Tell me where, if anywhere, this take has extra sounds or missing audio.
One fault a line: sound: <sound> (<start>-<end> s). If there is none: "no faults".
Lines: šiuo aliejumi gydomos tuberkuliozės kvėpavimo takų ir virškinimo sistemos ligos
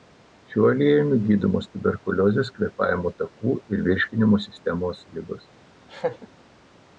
sound: laugh (5.9-6.3 s)